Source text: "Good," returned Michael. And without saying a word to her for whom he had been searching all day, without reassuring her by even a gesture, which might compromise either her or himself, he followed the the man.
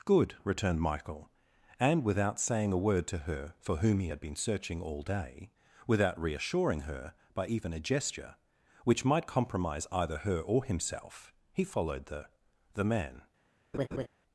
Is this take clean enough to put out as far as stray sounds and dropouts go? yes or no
no